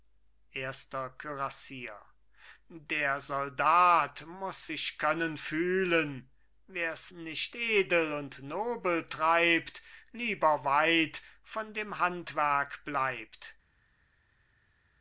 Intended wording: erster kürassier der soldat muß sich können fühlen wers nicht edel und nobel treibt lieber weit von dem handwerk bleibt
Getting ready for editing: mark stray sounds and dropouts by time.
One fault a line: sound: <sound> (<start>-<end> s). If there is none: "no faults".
no faults